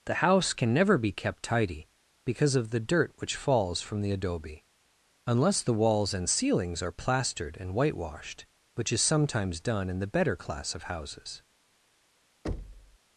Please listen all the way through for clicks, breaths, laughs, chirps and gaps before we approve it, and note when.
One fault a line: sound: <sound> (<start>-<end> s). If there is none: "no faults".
sound: thud (12.4-13.0 s)